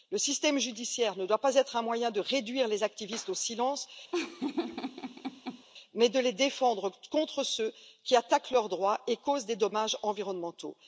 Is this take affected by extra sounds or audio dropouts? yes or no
yes